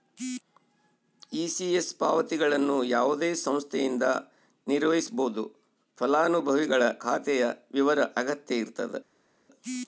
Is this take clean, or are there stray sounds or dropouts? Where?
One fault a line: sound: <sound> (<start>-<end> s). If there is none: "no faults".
no faults